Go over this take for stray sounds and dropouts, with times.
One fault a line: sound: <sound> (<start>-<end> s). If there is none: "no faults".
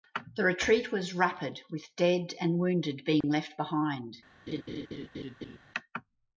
sound: dropout (3.2-3.2 s)
sound: laugh (4.5-5.6 s)